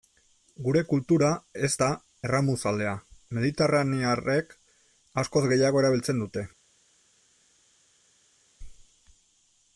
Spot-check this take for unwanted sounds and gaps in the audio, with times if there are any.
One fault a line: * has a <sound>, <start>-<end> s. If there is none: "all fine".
all fine